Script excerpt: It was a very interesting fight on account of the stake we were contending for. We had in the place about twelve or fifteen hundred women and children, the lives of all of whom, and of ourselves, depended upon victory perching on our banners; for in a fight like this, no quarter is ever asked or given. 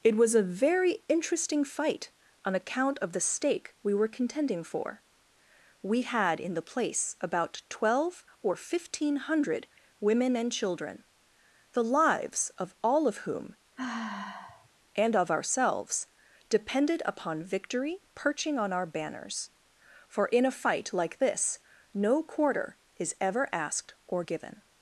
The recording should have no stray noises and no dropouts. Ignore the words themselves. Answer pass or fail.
fail